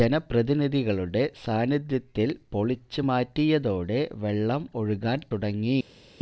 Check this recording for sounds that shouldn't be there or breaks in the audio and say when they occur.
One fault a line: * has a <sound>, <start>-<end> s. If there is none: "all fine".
all fine